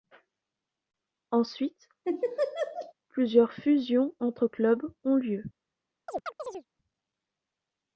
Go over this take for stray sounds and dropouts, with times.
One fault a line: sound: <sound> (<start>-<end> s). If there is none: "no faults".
sound: laugh (2.0-2.9 s)
sound: chirp (6.1-6.7 s)